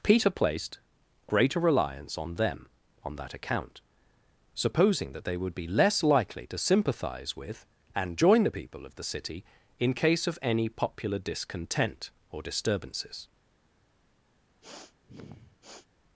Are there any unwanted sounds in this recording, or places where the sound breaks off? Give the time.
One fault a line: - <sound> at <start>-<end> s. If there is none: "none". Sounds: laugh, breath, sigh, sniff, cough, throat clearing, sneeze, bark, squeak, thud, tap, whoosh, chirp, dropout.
- sniff at 14.6-15.9 s